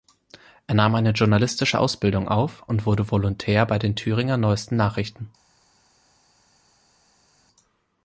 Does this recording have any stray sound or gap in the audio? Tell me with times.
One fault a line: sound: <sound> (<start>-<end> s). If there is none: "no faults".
no faults